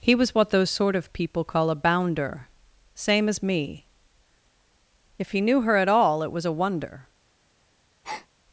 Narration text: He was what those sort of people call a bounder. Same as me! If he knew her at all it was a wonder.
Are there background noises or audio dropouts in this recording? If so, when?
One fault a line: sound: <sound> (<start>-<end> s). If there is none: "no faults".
sound: breath (8.0-8.3 s)